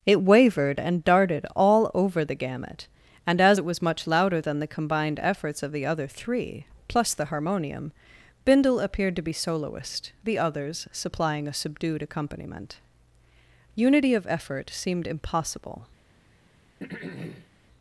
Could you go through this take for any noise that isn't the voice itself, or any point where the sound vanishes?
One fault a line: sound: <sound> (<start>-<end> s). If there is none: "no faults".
sound: throat clearing (16.8-17.5 s)